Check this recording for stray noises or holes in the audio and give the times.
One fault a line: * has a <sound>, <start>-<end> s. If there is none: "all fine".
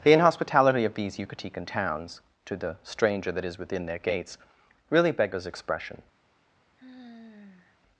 * has a sigh, 6.8-7.8 s